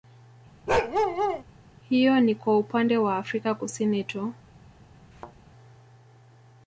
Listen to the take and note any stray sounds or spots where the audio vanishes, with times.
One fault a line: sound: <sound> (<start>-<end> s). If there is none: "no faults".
sound: bark (0.7-1.4 s)
sound: thud (5.1-5.4 s)